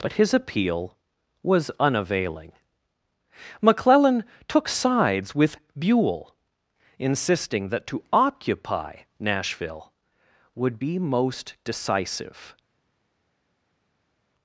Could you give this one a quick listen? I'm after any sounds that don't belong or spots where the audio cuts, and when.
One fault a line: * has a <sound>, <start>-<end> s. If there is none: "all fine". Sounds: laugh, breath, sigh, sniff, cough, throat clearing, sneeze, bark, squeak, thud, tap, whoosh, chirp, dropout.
all fine